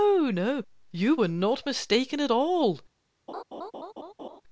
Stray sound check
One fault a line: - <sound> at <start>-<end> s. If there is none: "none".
- laugh at 3.3-4.4 s